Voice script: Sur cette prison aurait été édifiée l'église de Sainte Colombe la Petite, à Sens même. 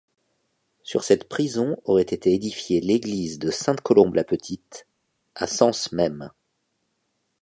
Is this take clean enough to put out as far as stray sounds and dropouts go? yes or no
yes